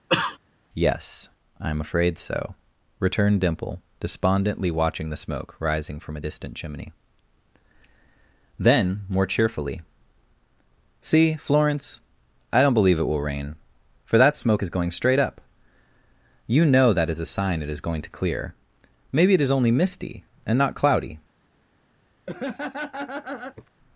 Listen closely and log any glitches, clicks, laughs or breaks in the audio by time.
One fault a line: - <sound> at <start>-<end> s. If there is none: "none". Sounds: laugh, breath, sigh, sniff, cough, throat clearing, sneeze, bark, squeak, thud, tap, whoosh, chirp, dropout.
- cough at 0.1-0.4 s
- laugh at 22.3-23.7 s